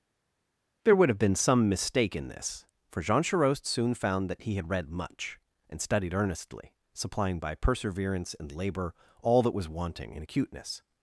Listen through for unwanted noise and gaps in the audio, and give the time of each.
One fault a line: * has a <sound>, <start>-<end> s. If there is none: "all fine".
all fine